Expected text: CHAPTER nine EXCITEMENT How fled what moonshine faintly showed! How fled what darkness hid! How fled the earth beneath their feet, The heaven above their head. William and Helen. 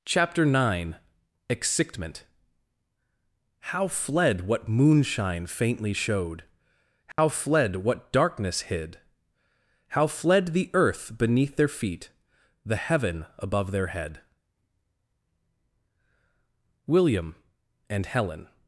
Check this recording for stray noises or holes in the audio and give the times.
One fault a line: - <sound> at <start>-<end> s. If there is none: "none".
- dropout at 7.1-7.2 s